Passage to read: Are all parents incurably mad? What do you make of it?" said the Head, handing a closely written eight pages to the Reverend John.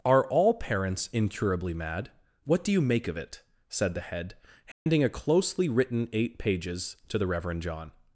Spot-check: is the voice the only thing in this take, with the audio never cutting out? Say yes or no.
no